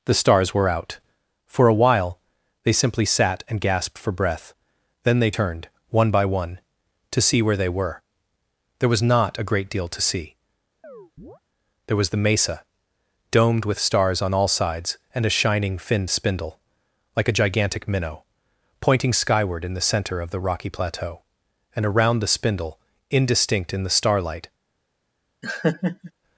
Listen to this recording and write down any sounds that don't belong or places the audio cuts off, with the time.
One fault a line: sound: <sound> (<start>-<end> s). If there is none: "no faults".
sound: chirp (10.8-11.4 s)
sound: laugh (25.4-26.1 s)